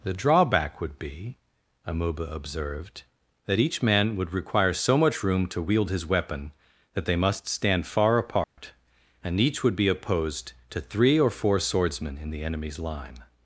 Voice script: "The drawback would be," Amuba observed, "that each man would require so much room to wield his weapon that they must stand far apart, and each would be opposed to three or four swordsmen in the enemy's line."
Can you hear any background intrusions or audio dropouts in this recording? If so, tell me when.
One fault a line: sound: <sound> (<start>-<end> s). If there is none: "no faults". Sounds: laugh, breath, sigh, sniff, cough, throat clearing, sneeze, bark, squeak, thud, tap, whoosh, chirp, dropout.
sound: dropout (8.4-8.6 s)